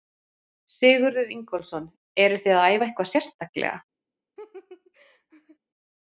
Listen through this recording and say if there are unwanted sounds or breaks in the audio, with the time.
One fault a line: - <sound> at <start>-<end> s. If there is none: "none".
- laugh at 4.4-5.6 s